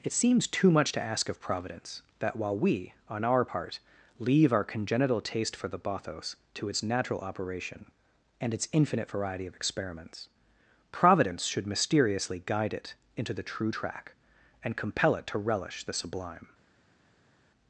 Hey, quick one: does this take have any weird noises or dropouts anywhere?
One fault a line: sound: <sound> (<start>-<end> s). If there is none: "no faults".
no faults